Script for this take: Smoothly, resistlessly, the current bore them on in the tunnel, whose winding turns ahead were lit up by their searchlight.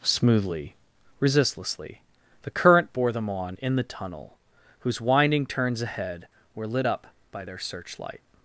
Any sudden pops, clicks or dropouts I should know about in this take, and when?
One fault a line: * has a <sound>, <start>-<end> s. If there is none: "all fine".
all fine